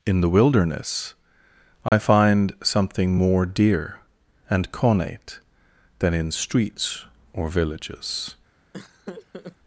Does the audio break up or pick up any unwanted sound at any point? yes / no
yes